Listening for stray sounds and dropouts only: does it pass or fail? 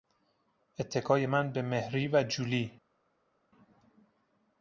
pass